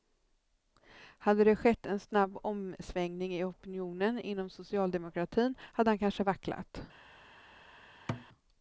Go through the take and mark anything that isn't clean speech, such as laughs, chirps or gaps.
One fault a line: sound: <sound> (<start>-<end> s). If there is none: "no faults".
sound: thud (8.1-8.3 s)